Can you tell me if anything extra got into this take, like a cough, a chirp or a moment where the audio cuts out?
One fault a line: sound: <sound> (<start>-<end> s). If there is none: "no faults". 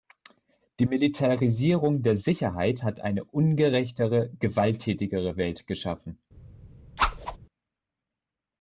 sound: whoosh (7.0-7.4 s)